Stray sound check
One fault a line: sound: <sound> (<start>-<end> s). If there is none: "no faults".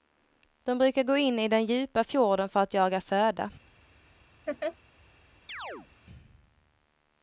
sound: laugh (4.5-4.8 s)
sound: chirp (5.5-5.9 s)